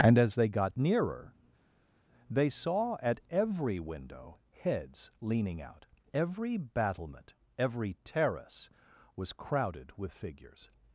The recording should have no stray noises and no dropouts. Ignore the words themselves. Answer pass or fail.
pass